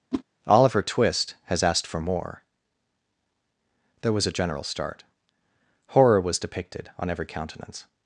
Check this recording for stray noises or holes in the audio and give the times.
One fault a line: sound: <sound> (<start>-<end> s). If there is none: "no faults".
sound: whoosh (0.1-0.2 s)